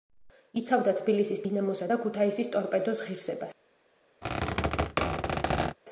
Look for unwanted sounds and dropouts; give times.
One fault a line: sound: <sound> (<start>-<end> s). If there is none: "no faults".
sound: squeak (4.2-5.8 s)